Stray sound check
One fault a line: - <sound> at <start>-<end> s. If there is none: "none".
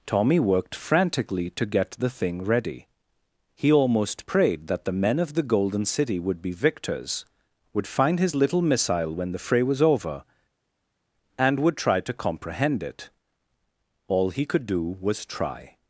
none